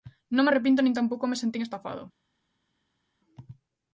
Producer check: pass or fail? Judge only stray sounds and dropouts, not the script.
pass